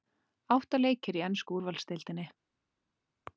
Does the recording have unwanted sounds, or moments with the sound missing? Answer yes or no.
no